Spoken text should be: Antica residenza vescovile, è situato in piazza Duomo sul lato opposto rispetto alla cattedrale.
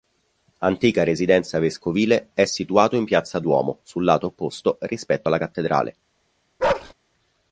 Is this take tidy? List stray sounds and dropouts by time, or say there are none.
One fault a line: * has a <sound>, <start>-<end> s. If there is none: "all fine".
* has a bark, 6.6-6.9 s